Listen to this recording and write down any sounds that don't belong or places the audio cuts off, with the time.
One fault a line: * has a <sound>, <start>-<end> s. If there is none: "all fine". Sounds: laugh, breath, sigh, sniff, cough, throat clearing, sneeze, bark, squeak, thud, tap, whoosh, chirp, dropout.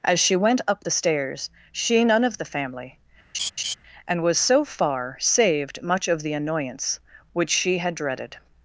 * has a laugh, 3.3-3.7 s